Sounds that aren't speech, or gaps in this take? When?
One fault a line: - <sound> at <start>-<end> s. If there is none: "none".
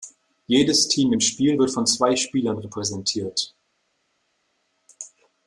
none